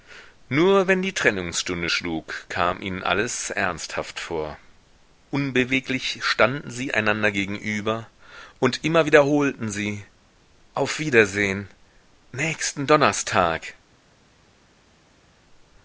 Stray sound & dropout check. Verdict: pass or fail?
pass